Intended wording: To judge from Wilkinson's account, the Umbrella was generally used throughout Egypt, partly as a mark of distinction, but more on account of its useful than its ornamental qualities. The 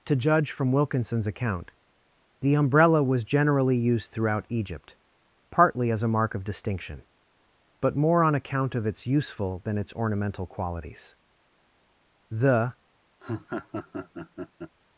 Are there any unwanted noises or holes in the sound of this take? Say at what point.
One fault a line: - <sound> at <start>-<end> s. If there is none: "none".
- laugh at 13.2-14.8 s